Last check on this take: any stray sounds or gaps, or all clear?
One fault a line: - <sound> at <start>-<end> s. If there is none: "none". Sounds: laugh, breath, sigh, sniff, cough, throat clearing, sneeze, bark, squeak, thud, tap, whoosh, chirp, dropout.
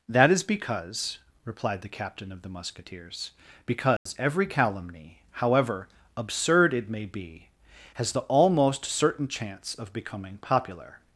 - dropout at 4.0-4.1 s